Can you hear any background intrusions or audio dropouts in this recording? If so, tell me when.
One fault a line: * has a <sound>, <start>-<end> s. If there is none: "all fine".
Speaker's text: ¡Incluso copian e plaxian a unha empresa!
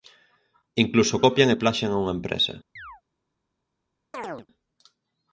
* has a chirp, 2.8-3.0 s
* has a chirp, 4.1-4.5 s